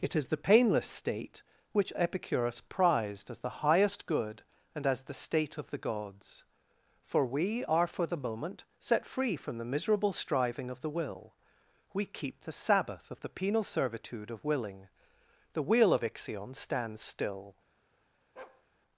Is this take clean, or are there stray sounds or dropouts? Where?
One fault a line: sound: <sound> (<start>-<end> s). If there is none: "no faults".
sound: bark (18.4-18.6 s)